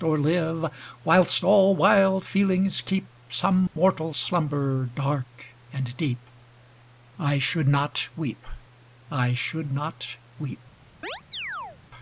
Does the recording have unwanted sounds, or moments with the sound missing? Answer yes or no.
yes